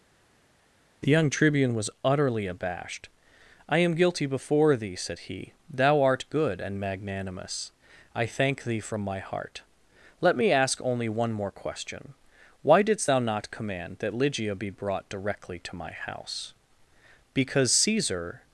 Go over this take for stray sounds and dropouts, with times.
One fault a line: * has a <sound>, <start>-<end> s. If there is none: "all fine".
all fine